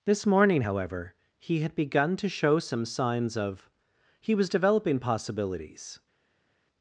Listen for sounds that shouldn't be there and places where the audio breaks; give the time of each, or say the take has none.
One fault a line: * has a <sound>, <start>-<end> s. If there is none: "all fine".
all fine